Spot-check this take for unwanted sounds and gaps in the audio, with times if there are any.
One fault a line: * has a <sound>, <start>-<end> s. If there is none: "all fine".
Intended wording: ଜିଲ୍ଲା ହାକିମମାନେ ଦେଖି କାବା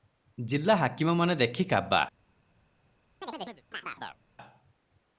* has a chirp, 3.2-4.2 s